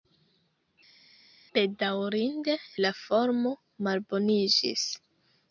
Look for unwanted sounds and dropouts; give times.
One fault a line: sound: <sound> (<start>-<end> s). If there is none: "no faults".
no faults